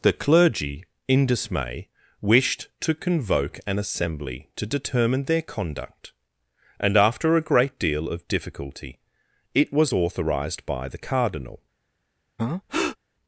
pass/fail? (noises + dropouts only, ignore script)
fail